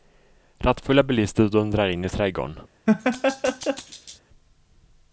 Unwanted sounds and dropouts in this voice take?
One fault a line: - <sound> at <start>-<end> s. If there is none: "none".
- laugh at 2.9-4.2 s